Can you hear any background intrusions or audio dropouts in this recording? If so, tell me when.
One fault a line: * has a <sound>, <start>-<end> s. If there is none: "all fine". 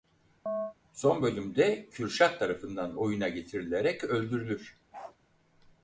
* has a chirp, 0.5-0.7 s
* has a bark, 4.9-5.2 s